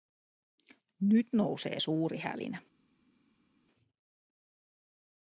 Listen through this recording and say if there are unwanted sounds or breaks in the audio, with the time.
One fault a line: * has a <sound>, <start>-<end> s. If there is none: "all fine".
all fine